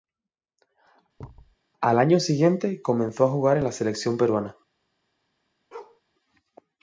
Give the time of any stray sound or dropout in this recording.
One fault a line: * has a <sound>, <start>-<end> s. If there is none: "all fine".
* has a thud, 1.2-1.6 s
* has a bark, 5.7-6.0 s